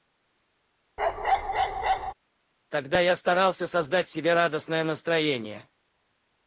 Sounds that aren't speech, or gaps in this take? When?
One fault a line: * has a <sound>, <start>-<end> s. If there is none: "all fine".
* has a bark, 1.0-2.1 s